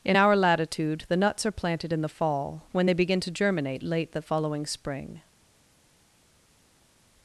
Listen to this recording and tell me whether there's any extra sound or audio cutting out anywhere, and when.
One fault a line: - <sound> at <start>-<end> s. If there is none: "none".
none